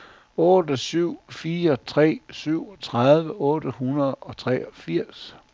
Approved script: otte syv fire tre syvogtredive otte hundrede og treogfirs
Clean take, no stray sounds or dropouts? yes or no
yes